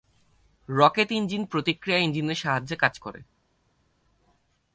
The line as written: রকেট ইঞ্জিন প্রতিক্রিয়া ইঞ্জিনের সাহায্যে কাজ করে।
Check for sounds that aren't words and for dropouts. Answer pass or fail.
pass